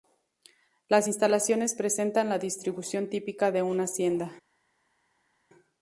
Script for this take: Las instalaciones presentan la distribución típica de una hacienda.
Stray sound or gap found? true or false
false